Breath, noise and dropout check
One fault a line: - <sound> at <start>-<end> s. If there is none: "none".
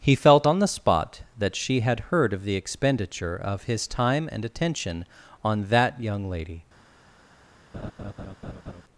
- laugh at 7.7-8.8 s